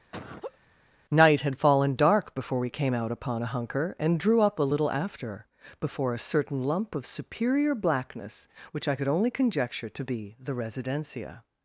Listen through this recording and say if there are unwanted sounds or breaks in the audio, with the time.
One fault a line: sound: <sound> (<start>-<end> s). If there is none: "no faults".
sound: laugh (0.1-0.6 s)